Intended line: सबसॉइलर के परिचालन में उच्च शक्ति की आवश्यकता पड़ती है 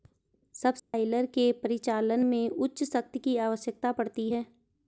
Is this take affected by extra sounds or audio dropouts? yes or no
yes